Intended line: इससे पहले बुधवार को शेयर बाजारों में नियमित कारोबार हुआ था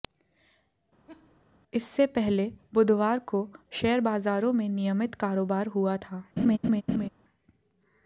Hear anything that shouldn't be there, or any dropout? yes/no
yes